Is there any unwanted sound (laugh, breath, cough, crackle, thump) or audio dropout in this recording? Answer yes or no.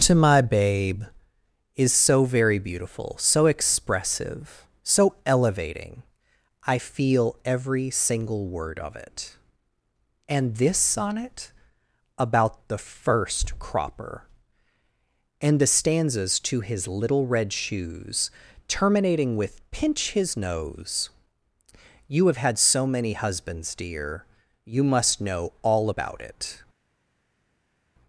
no